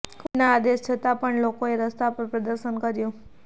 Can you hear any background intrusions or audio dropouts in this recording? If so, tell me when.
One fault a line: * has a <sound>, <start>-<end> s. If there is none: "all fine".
all fine